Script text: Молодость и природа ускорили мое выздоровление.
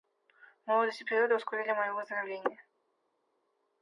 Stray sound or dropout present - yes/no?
no